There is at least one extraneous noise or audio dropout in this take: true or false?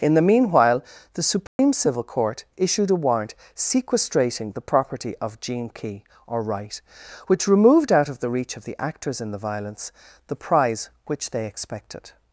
true